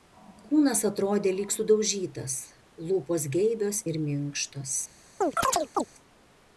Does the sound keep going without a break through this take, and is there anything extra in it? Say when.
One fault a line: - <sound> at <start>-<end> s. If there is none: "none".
- chirp at 5.2-5.8 s